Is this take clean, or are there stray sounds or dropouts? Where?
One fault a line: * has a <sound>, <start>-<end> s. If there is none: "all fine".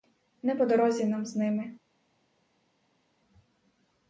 all fine